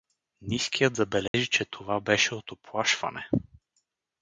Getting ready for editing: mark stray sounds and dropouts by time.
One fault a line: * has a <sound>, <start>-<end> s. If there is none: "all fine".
* has a dropout, 1.3-1.3 s